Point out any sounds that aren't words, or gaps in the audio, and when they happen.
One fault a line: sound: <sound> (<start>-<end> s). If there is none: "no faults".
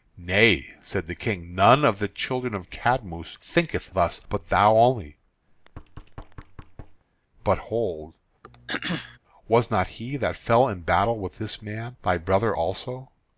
sound: thud (5.5-7.0 s)
sound: throat clearing (8.4-9.2 s)